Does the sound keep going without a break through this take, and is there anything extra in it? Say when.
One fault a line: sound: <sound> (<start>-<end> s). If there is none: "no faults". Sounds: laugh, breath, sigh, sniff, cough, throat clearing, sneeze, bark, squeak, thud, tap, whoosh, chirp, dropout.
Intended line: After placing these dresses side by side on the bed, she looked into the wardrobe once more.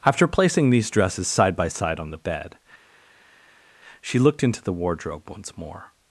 no faults